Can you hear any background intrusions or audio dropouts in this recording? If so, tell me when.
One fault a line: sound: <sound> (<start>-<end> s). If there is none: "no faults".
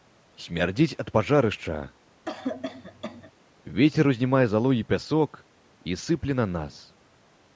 sound: cough (2.2-3.3 s)